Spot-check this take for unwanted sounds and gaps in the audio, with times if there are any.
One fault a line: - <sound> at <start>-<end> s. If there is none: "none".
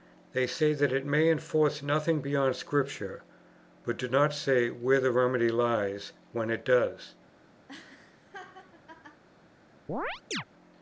- laugh at 7.7-9.2 s
- chirp at 9.9-10.4 s